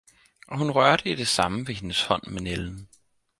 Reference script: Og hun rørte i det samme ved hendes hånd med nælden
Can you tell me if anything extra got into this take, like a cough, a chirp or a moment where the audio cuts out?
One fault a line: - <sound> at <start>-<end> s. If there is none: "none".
none